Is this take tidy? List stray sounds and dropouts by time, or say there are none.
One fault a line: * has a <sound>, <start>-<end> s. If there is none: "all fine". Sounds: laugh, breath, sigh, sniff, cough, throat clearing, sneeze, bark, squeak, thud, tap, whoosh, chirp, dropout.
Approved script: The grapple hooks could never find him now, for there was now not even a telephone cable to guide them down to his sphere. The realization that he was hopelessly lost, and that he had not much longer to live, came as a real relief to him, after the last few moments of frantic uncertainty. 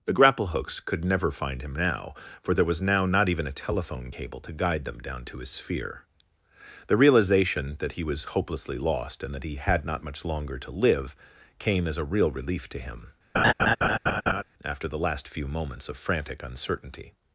* has a laugh, 13.3-14.4 s